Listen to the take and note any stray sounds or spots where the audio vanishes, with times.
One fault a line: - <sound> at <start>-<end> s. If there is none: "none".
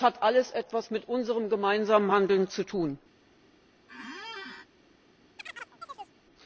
- squeak at 3.9-4.7 s
- chirp at 5.4-6.2 s